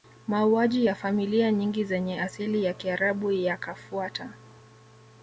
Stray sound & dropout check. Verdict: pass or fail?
pass